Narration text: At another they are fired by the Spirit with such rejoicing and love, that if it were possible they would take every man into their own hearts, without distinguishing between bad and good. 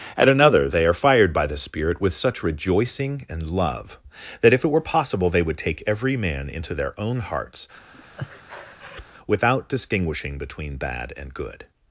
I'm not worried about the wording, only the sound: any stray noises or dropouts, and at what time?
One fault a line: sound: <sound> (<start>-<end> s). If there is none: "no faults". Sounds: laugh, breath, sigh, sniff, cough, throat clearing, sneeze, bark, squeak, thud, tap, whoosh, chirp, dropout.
sound: breath (7.9-9.1 s)